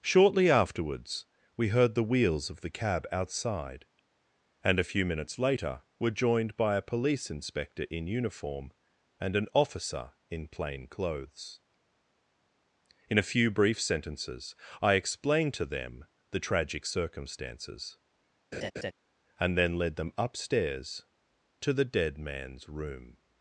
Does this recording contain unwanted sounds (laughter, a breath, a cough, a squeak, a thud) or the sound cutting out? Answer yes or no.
yes